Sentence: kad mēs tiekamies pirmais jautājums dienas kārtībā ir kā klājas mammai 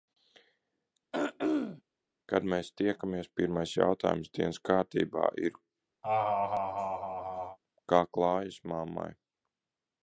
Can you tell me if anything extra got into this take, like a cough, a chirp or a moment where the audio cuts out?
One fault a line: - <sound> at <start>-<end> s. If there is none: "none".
- throat clearing at 1.1-1.8 s
- laugh at 6.0-7.6 s